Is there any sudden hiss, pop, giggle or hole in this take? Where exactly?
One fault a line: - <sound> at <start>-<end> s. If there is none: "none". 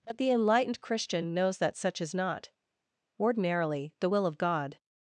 none